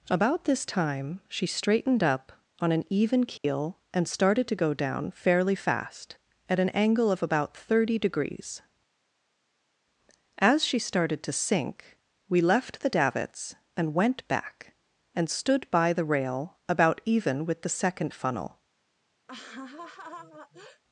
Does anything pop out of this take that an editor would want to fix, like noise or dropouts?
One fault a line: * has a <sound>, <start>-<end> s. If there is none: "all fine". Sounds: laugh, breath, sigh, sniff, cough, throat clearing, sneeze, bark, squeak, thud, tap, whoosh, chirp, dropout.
* has a dropout, 3.4-3.4 s
* has a laugh, 19.3-20.8 s